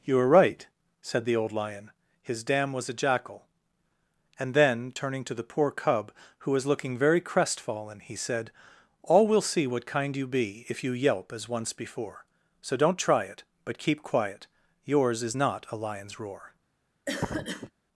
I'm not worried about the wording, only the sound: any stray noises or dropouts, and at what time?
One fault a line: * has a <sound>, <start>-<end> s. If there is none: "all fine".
* has a cough, 17.1-17.7 s